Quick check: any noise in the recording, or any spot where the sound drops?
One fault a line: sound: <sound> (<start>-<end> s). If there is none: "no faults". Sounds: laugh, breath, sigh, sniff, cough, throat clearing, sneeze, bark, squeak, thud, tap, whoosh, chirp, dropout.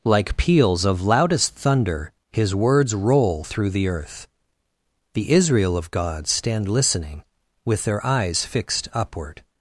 no faults